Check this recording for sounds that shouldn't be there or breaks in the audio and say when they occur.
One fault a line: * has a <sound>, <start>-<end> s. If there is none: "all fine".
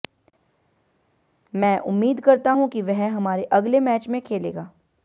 all fine